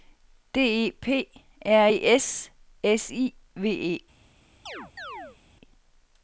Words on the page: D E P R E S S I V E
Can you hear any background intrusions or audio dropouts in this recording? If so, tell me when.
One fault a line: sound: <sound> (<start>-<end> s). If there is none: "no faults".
sound: chirp (4.7-5.4 s)